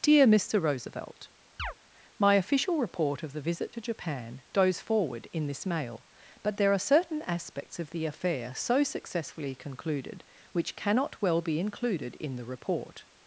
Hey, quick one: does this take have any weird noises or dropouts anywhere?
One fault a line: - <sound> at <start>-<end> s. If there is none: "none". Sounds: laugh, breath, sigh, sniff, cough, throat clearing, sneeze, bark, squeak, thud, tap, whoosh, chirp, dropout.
- chirp at 1.6-1.7 s